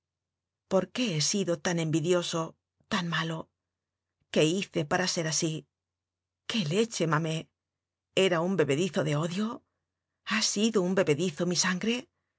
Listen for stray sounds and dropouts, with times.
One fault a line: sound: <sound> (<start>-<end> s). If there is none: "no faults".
no faults